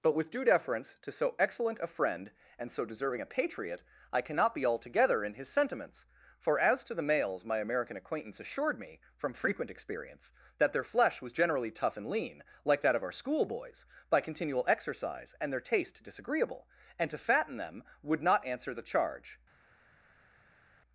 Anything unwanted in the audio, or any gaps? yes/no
no